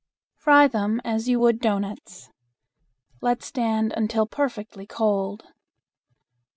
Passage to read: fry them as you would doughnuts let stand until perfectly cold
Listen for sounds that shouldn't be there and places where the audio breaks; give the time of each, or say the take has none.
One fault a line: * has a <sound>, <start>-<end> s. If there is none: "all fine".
all fine